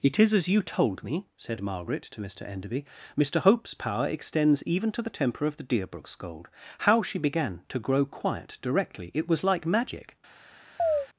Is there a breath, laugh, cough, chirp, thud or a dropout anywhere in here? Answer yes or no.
yes